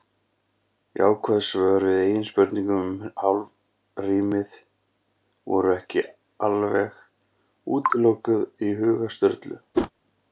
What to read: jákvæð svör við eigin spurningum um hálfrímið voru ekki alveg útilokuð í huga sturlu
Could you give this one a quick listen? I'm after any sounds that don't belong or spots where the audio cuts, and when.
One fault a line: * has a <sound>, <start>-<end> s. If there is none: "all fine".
* has a whoosh, 9.7-9.9 s